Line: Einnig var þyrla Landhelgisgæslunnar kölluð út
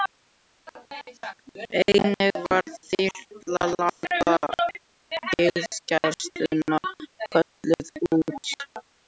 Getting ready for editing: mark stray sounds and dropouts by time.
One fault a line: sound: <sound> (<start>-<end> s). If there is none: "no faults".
sound: dropout (3.9-4.0 s)